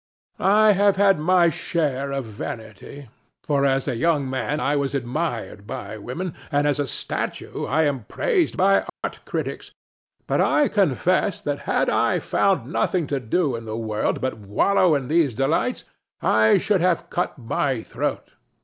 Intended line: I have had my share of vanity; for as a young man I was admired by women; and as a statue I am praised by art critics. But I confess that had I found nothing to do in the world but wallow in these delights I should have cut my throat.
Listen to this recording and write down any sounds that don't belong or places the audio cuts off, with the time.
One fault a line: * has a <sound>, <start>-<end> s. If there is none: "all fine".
* has a dropout, 8.9-9.0 s